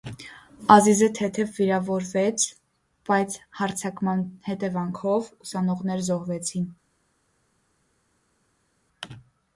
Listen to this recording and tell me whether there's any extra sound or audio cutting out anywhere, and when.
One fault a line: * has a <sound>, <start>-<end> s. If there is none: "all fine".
all fine